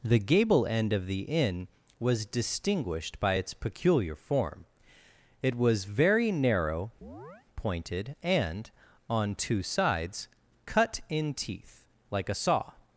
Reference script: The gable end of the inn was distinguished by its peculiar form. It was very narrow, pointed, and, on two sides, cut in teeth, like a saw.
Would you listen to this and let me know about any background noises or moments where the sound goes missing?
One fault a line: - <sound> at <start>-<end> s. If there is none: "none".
- chirp at 7.0-7.5 s